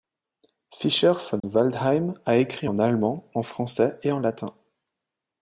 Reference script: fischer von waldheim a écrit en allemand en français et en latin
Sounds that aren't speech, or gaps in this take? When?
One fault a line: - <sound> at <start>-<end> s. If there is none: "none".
- dropout at 1.4-1.4 s